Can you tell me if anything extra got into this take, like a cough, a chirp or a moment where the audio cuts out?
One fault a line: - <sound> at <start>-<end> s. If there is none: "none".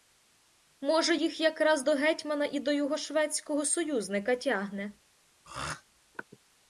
- throat clearing at 5.4-5.8 s